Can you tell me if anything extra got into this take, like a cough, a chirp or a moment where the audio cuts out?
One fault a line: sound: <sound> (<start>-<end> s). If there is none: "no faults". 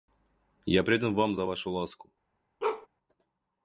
sound: bark (2.6-2.9 s)